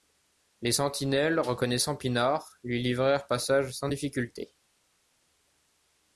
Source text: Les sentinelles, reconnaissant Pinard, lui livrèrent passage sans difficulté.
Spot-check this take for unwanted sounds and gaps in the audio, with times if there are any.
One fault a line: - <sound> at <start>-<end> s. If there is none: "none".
none